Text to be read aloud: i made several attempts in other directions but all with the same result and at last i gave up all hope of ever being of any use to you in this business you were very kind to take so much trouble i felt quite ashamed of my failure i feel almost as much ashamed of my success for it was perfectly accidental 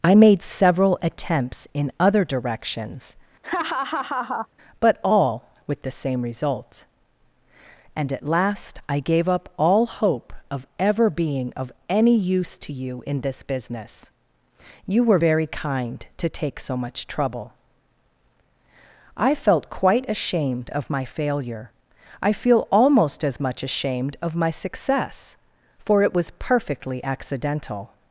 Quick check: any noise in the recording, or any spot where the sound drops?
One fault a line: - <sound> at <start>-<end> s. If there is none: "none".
- laugh at 3.4-4.5 s